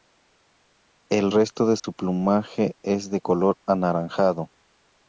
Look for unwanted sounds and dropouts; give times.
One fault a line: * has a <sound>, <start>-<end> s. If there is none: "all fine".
* has a dropout, 1.8-1.8 s